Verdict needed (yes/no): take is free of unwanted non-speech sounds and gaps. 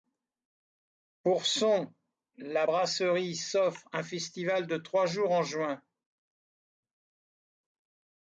yes